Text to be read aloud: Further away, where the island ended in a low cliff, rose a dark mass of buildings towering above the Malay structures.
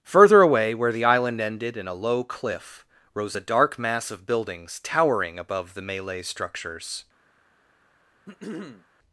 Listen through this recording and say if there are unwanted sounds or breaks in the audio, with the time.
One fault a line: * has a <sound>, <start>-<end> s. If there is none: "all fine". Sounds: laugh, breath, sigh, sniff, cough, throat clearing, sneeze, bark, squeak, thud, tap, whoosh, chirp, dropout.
* has a throat clearing, 8.3-8.9 s